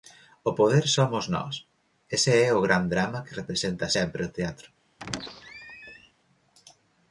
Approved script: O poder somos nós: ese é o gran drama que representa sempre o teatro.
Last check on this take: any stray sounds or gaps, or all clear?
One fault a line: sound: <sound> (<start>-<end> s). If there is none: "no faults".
sound: squeak (5.0-6.1 s)